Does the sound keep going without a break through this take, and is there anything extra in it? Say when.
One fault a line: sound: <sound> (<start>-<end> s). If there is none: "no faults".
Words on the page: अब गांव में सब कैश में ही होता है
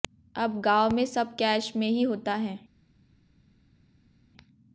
no faults